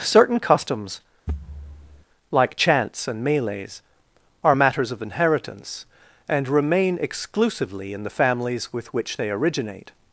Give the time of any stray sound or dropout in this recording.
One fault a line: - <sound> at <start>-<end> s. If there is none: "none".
- thud at 1.3-2.0 s